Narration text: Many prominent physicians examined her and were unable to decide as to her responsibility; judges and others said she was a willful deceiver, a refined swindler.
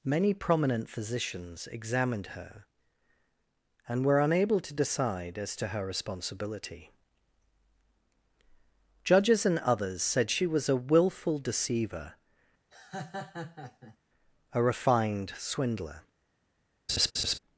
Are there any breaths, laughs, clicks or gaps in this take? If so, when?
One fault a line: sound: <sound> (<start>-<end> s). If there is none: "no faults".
sound: laugh (12.7-14.0 s)
sound: laugh (16.9-17.4 s)